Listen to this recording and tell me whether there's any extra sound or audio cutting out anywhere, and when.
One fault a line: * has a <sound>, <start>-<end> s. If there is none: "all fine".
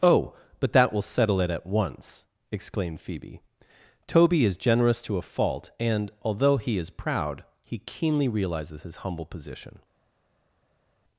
all fine